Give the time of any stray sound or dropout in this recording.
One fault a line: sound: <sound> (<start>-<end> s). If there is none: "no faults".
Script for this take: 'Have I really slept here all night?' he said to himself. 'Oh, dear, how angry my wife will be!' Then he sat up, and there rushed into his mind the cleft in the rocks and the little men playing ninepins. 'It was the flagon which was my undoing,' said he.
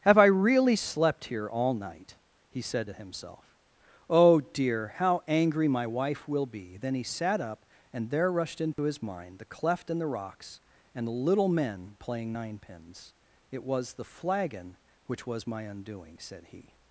sound: dropout (8.7-8.8 s)